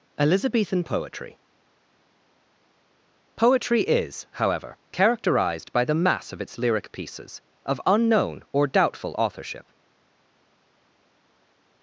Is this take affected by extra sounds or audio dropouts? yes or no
no